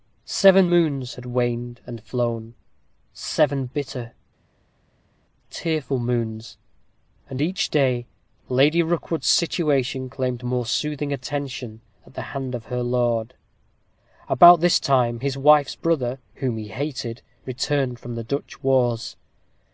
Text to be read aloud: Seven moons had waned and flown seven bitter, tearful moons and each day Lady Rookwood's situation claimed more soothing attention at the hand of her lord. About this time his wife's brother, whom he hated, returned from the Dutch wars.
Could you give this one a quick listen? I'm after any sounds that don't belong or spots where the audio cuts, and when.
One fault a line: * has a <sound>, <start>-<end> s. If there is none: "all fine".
all fine